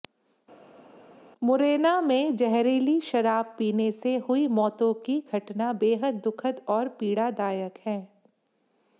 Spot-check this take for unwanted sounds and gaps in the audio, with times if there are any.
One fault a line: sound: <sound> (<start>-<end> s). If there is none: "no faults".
no faults